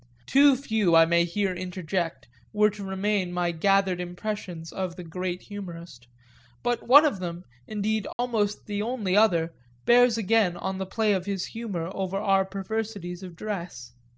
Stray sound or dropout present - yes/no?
yes